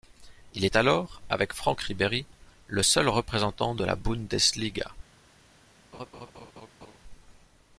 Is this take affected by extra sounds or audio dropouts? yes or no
yes